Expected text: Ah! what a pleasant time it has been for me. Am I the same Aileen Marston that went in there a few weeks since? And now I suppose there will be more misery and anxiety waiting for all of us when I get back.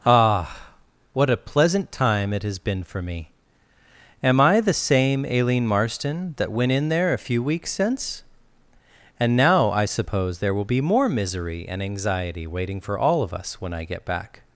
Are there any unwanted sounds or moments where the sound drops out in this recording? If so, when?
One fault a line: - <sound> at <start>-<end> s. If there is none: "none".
none